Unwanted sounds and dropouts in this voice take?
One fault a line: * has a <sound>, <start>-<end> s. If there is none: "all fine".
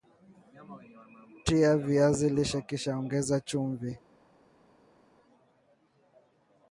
all fine